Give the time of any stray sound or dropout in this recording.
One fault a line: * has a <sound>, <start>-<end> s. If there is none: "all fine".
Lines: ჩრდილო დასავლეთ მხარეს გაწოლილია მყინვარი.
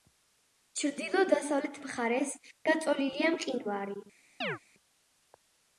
* has a chirp, 4.4-4.6 s